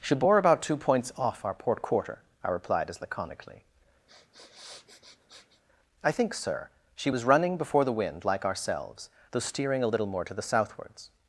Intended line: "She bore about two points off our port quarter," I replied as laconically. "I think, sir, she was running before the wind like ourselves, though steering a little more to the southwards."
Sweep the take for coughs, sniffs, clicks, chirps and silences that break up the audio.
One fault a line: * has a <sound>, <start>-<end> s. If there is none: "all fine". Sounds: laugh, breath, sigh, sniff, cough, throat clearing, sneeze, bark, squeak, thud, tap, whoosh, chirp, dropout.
* has a sniff, 4.1-5.6 s